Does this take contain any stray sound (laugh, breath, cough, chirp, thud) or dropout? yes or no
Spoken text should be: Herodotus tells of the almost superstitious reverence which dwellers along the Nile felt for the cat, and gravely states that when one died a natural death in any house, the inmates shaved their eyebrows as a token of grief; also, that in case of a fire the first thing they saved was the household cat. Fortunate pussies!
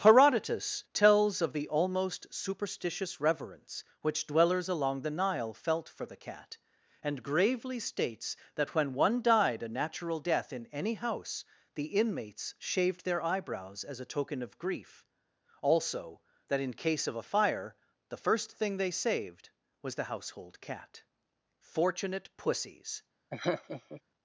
yes